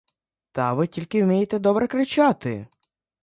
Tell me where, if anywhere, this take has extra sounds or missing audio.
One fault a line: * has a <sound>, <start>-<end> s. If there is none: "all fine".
all fine